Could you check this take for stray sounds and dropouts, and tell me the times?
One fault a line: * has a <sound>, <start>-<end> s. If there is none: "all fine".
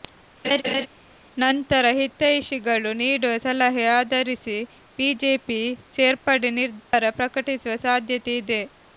* has a laugh, 0.4-0.9 s
* has a dropout, 6.8-6.9 s